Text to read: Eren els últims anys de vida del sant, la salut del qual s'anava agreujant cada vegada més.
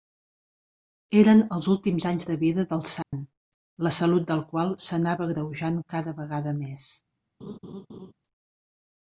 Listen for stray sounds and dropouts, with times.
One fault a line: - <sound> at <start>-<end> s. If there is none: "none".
- dropout at 3.0-3.1 s
- laugh at 7.4-8.1 s